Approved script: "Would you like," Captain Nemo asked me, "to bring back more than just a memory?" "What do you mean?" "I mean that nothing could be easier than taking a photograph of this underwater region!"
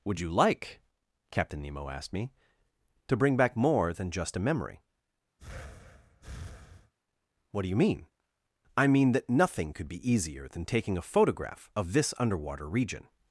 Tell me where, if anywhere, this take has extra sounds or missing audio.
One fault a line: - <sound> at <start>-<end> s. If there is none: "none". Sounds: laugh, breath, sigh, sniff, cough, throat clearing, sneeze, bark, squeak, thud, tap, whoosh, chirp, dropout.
- breath at 5.4-6.9 s